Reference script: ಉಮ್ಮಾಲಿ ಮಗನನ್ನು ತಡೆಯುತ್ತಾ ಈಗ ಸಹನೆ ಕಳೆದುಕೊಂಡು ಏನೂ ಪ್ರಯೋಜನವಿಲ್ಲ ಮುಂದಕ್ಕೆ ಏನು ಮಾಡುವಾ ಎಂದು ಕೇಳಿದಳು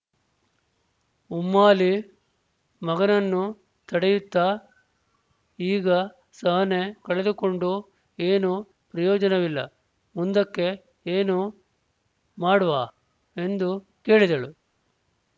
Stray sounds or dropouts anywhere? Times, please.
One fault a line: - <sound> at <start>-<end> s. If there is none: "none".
none